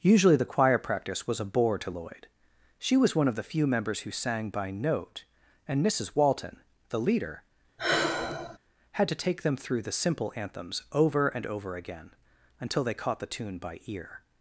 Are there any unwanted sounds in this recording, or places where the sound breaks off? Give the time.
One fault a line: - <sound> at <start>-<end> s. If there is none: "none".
- sigh at 7.8-8.6 s